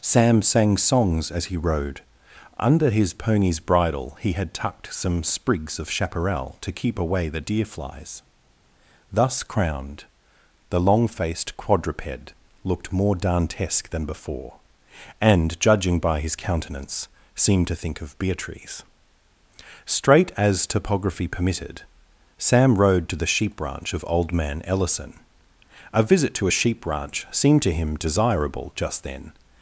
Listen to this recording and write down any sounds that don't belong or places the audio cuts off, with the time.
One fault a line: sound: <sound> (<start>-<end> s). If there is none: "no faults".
no faults